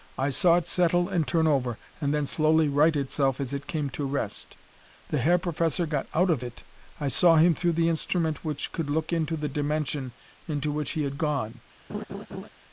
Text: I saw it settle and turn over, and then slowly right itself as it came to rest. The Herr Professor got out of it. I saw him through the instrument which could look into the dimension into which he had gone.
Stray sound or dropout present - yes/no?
yes